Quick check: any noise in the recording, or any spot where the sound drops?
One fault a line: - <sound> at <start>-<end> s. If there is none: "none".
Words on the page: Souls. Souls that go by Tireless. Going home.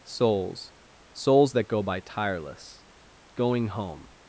none